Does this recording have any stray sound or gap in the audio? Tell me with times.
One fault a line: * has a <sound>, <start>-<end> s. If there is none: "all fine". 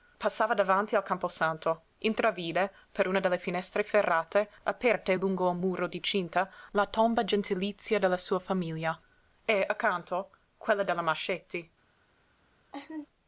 * has a laugh, 12.7-13.1 s